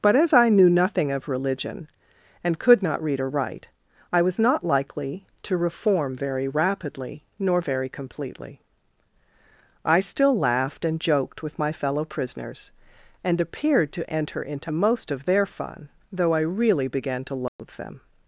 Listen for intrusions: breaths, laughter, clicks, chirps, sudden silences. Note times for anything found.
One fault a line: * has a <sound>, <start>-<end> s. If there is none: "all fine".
* has a dropout, 17.5-17.6 s